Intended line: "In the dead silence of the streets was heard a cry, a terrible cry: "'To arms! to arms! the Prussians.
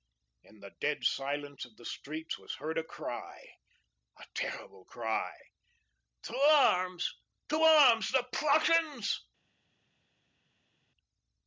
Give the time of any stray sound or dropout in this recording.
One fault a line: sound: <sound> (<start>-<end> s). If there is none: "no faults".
no faults